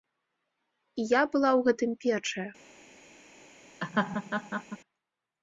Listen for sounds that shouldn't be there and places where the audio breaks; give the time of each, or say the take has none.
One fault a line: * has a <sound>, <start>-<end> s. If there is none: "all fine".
* has a laugh, 3.8-4.8 s